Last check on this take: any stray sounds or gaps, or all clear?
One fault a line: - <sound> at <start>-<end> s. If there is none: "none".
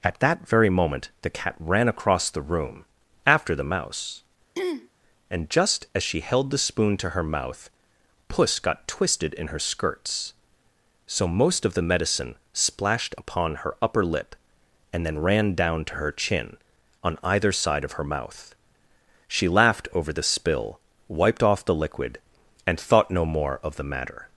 - throat clearing at 4.6-4.9 s